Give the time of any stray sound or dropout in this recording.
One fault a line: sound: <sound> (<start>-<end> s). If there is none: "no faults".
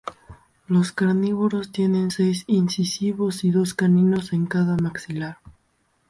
no faults